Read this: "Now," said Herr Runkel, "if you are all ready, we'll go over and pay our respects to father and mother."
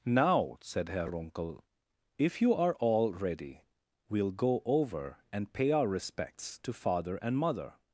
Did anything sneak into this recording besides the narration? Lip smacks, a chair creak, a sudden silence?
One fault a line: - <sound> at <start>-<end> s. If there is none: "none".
none